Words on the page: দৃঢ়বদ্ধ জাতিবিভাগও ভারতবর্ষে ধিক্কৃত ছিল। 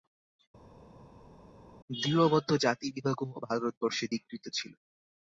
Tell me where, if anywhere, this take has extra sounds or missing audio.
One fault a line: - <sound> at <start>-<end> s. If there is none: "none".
none